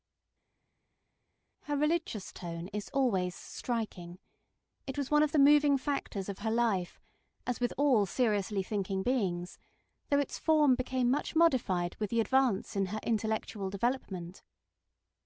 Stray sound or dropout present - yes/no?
no